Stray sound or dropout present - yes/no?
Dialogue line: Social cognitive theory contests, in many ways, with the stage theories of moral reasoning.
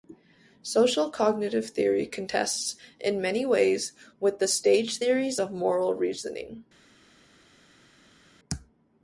no